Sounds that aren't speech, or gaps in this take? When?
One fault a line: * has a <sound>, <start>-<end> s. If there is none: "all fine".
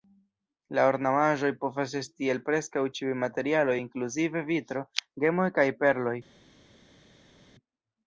all fine